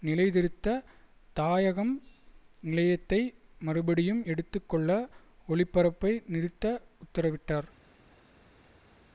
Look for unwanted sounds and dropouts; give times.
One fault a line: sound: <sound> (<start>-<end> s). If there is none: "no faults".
no faults